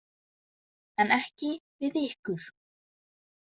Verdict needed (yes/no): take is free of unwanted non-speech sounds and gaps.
yes